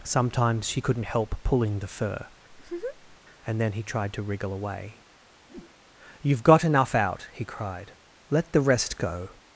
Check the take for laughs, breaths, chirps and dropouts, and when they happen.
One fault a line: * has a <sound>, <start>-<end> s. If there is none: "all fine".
* has a laugh, 2.5-3.2 s
* has a whoosh, 5.5-5.8 s